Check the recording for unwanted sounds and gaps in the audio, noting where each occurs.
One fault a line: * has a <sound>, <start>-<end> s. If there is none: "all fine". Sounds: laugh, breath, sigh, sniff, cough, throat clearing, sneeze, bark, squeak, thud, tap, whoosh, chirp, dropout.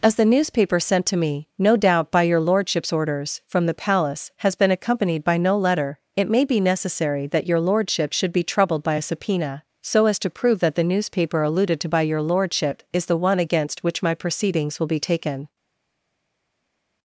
all fine